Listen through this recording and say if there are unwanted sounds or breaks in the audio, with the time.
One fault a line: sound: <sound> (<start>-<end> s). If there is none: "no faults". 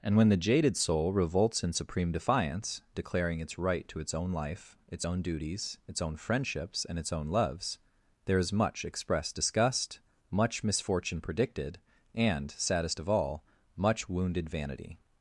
no faults